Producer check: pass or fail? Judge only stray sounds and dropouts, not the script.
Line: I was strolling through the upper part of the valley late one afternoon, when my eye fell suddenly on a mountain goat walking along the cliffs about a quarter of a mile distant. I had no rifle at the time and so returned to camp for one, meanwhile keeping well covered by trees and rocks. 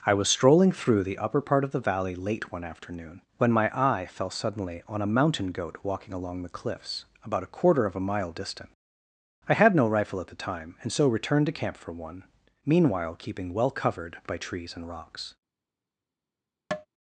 fail